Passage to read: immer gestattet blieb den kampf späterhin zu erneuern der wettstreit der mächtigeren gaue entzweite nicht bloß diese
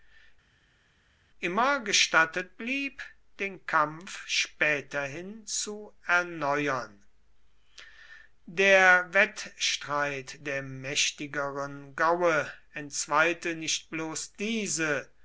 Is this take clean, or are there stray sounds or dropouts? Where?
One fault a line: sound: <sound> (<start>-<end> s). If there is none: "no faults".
no faults